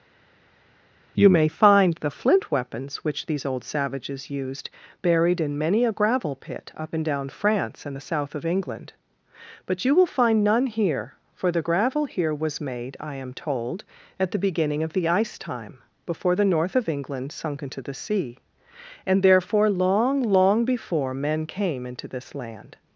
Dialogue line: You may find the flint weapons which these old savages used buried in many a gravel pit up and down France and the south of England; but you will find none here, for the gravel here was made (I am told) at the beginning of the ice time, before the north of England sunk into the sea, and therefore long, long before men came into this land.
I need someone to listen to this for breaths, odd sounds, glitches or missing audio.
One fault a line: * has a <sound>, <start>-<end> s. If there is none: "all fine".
all fine